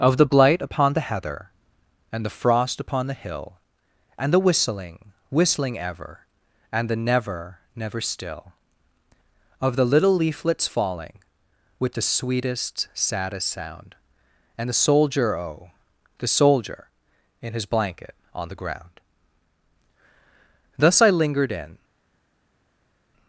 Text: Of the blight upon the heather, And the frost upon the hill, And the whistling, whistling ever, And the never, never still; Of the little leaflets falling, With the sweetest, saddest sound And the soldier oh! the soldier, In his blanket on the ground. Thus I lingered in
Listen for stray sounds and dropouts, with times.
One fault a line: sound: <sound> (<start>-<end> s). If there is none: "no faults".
no faults